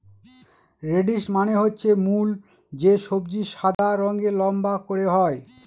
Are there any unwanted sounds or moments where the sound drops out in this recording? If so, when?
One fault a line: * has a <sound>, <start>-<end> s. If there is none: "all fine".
* has a dropout, 3.7-3.8 s